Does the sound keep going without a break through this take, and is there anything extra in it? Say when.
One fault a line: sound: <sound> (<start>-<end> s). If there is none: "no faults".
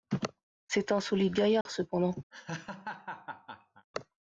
sound: dropout (1.6-1.7 s)
sound: laugh (2.3-3.9 s)